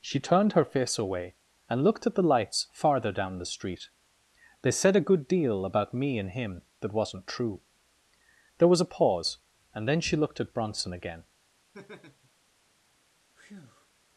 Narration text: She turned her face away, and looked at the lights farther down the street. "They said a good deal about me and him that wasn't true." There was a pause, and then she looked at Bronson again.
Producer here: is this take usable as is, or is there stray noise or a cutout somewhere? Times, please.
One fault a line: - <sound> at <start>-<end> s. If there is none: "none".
- laugh at 11.7-12.3 s
- breath at 13.3-13.9 s